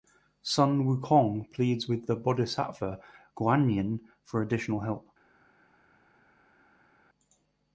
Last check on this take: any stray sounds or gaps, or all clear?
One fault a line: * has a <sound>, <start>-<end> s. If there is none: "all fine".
all fine